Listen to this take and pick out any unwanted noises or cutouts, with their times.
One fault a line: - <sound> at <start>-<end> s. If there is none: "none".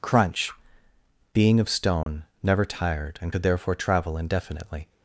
- dropout at 2.0-2.1 s